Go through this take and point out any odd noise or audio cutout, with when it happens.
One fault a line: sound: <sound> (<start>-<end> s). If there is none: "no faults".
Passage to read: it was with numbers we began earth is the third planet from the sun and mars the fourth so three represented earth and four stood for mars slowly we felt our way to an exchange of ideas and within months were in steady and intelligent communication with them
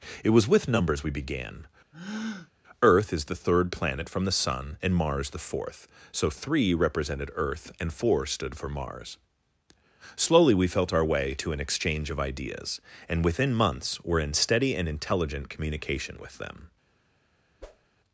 sound: breath (1.9-2.5 s)
sound: whoosh (17.6-17.9 s)